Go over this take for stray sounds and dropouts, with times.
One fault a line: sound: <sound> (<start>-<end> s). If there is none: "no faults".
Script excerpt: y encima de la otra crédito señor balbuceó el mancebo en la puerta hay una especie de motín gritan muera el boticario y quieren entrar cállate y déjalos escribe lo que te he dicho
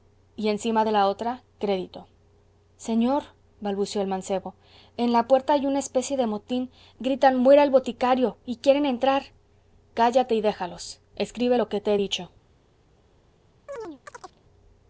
sound: chirp (13.7-14.4 s)